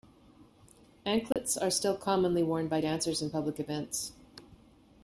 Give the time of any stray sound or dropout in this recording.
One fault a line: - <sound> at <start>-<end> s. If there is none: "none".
- dropout at 1.3-1.4 s